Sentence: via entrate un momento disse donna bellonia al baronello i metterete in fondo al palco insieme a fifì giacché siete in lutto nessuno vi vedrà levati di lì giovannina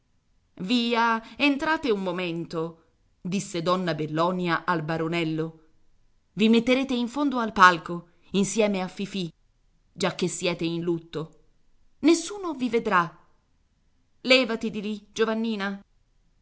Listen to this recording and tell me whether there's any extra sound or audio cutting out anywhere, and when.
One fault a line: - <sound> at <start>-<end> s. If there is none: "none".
none